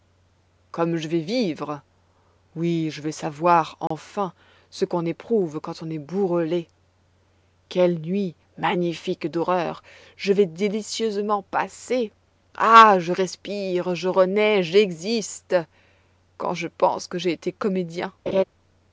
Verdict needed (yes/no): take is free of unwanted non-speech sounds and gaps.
no